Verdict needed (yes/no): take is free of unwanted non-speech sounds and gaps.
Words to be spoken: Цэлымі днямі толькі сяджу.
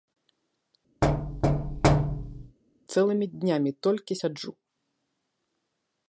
no